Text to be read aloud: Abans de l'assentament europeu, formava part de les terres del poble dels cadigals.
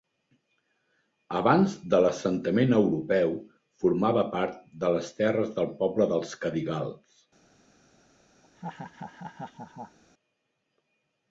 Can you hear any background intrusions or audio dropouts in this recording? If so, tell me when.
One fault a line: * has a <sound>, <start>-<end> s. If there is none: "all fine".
* has a laugh, 8.4-10.0 s